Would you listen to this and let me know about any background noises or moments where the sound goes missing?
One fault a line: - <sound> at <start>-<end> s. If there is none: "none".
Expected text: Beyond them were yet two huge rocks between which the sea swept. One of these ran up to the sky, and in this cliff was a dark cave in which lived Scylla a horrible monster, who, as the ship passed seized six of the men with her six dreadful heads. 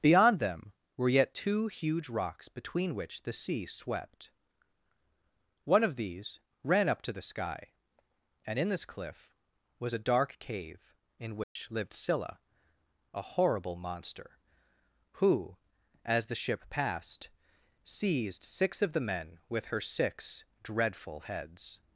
- dropout at 11.4-11.6 s